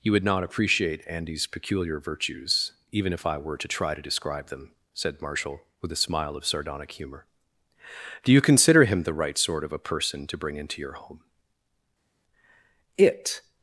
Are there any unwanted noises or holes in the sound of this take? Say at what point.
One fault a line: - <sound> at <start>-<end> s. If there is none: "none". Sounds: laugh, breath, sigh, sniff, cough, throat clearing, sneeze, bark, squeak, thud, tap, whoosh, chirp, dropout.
none